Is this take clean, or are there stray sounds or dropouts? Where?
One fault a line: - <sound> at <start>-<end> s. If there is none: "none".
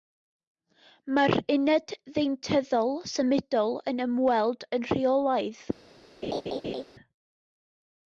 - laugh at 6.2-6.8 s